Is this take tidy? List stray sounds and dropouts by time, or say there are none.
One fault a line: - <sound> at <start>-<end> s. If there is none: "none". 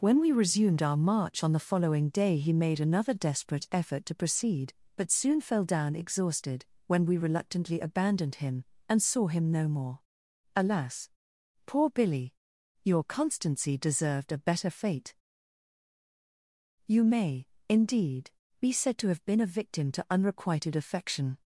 none